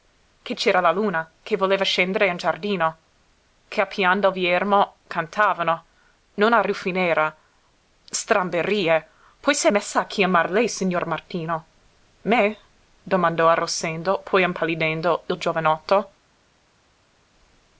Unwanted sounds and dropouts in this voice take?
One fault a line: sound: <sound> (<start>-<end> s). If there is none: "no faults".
no faults